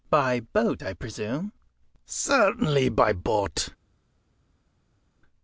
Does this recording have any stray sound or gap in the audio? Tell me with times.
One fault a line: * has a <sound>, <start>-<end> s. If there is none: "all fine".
all fine